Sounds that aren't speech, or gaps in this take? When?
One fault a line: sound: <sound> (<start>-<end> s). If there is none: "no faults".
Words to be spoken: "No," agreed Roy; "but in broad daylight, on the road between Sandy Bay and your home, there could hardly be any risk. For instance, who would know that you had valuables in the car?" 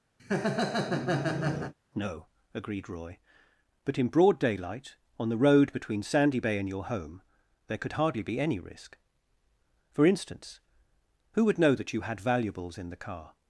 sound: laugh (0.2-1.7 s)